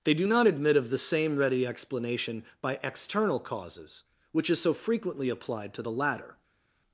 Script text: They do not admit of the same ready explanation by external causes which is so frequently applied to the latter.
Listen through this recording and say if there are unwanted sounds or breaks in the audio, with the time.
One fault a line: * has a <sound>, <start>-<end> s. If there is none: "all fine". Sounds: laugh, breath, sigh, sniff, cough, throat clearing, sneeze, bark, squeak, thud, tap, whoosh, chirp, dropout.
all fine